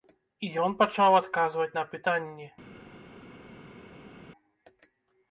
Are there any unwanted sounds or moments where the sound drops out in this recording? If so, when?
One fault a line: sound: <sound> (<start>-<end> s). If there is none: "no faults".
no faults